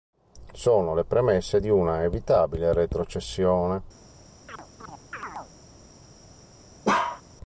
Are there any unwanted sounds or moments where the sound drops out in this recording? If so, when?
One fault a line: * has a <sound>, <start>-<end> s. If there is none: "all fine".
* has a chirp, 4.5-5.5 s
* has a bark, 6.8-7.2 s